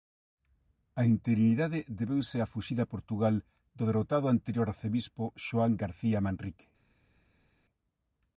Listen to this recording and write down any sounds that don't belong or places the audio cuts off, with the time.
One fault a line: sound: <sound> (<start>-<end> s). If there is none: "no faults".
no faults